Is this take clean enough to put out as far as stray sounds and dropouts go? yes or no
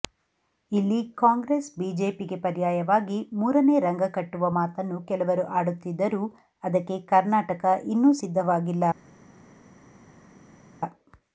yes